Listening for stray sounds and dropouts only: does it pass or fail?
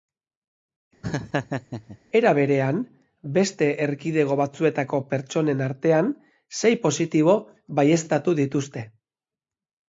fail